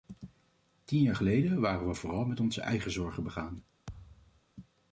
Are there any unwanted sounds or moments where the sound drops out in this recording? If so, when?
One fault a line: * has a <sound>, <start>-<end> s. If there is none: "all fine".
* has a thud, 3.9-4.4 s